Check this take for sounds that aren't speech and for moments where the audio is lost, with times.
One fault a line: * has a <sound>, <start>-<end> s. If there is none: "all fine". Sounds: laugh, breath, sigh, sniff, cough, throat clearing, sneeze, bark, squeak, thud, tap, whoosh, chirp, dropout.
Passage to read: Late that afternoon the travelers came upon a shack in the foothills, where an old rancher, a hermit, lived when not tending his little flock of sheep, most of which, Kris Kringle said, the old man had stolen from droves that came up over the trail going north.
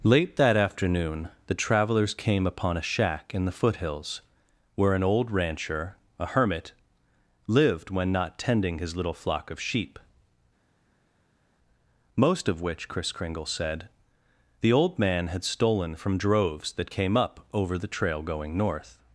all fine